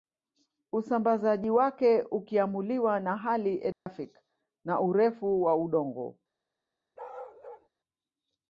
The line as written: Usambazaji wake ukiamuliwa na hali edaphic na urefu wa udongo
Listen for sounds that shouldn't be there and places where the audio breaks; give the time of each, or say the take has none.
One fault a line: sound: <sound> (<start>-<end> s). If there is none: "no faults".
sound: dropout (3.7-3.9 s)
sound: bark (7.0-7.7 s)